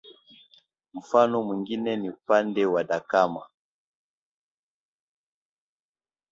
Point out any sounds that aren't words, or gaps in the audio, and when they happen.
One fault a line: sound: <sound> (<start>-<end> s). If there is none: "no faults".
no faults